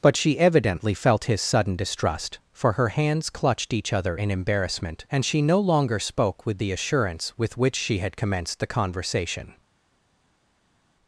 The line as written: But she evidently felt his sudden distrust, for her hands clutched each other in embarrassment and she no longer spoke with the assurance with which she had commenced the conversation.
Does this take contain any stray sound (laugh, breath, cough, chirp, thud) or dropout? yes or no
no